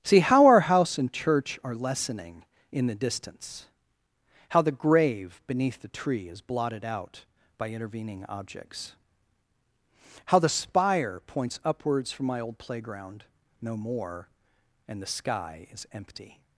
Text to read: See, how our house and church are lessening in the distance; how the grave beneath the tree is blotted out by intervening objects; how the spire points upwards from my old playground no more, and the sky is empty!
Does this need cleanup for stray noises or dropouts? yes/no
no